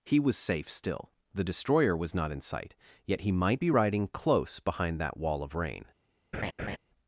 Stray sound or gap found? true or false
true